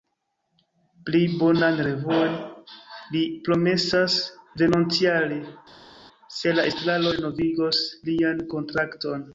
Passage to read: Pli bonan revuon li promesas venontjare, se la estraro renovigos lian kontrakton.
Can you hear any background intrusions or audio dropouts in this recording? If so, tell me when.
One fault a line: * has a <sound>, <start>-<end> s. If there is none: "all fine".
all fine